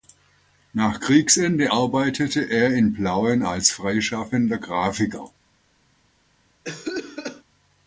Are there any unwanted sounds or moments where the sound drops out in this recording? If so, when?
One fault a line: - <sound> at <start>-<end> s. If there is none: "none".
- cough at 6.6-7.4 s